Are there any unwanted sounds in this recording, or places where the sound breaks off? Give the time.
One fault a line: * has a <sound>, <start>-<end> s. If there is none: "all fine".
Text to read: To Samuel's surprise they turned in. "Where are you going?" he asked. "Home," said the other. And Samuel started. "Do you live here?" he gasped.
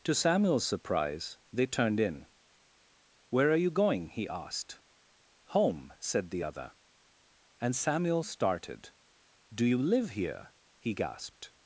all fine